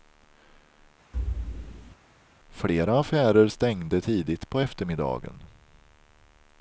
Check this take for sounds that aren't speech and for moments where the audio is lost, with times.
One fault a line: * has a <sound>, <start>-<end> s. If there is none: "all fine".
* has a thud, 1.1-2.0 s